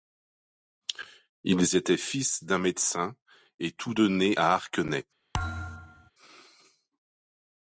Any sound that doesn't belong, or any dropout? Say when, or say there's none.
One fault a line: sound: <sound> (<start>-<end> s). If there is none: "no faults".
sound: thud (5.3-6.1 s)